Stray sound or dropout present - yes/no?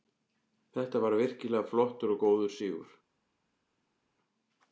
no